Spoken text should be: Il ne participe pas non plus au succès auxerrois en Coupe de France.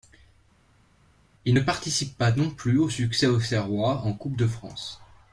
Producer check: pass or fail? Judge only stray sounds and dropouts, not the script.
pass